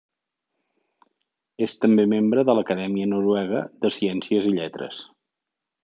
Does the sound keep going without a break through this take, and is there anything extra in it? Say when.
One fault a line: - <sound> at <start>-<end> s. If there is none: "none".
none